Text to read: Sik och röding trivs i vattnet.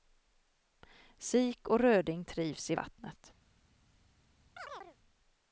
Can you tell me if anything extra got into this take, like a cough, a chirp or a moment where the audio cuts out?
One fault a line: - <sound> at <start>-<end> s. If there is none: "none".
- chirp at 4.6-5.0 s